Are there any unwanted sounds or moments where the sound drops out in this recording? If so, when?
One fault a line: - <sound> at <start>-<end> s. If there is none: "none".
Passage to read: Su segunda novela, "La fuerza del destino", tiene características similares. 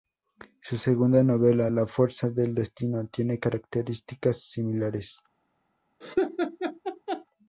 - laugh at 6.0-7.3 s